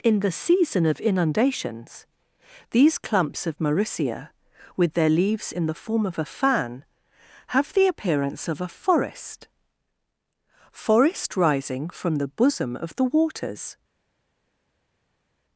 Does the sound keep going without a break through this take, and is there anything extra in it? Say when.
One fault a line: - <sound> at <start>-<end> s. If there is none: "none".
none